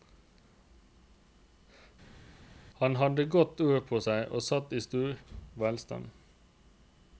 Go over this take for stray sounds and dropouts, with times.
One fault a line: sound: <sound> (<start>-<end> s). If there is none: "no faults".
no faults